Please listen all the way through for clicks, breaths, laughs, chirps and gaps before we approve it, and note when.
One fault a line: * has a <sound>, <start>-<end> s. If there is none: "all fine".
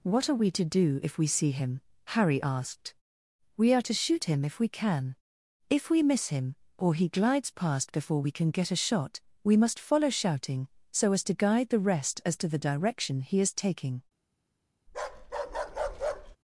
* has a bark, 14.9-16.4 s